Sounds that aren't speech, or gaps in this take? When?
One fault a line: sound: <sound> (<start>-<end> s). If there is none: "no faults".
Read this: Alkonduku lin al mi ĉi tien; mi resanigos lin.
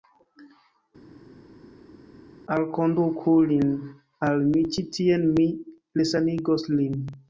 no faults